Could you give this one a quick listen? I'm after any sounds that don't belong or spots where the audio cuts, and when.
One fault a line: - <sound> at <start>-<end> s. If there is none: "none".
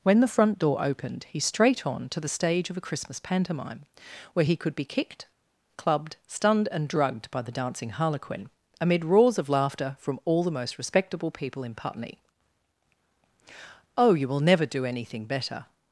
none